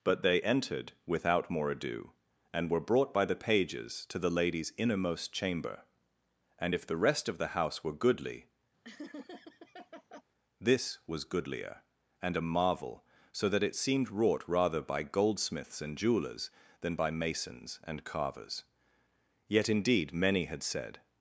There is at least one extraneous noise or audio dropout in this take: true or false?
true